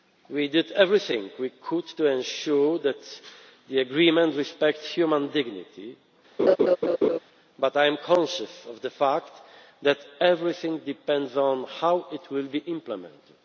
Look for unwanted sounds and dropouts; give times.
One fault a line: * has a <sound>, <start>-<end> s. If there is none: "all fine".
* has a laugh, 6.4-7.2 s